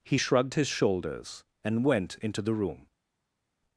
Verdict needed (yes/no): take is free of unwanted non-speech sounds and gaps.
yes